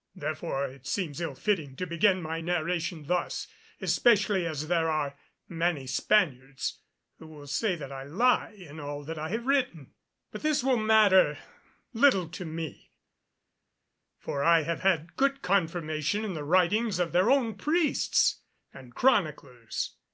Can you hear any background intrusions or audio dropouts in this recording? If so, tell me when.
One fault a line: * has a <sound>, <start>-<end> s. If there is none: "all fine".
all fine